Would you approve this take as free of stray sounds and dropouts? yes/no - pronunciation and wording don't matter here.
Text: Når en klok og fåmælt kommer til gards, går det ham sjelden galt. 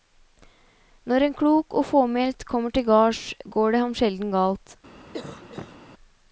no